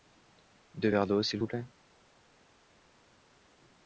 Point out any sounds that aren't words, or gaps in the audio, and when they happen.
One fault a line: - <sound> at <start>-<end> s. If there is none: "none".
none